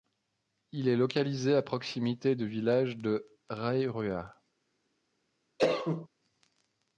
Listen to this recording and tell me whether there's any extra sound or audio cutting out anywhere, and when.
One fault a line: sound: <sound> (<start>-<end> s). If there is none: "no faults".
sound: cough (5.6-6.1 s)